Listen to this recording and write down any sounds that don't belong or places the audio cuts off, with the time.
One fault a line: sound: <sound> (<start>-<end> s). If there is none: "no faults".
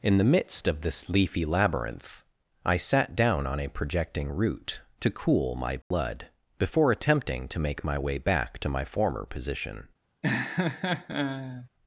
sound: dropout (5.8-5.9 s)
sound: laugh (10.2-11.7 s)